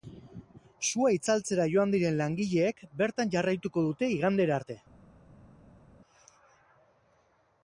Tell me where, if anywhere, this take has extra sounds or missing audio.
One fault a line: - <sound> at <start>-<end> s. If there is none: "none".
none